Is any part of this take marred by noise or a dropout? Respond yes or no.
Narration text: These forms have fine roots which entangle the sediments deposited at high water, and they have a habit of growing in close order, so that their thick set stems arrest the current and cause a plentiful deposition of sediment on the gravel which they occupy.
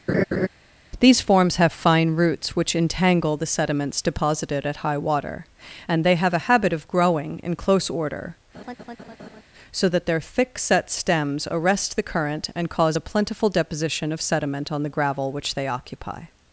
yes